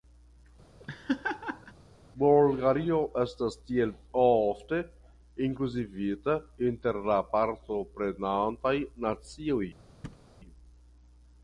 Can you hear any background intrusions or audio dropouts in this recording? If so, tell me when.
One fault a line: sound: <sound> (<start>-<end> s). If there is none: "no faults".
sound: laugh (0.8-1.7 s)
sound: thud (10.0-10.3 s)